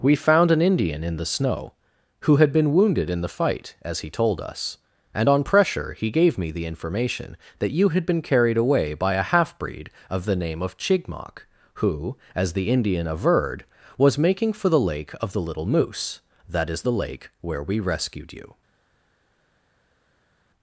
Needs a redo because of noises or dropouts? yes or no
no